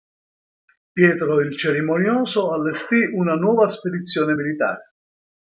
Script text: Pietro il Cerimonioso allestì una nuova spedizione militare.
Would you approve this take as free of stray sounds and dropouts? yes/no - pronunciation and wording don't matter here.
yes